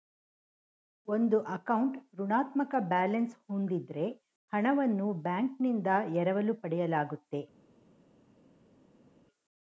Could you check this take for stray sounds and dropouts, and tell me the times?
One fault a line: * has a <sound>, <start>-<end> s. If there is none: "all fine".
all fine